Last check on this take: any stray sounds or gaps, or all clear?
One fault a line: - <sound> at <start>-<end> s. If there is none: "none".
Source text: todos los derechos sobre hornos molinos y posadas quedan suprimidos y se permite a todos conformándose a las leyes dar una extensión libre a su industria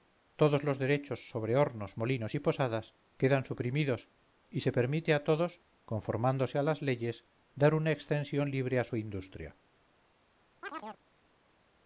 - chirp at 10.6-11.0 s